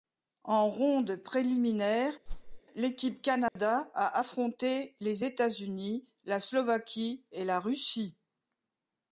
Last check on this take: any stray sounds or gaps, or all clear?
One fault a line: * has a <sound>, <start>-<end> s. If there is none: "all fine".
* has a whoosh, 2.3-2.6 s
* has a dropout, 3.5-3.6 s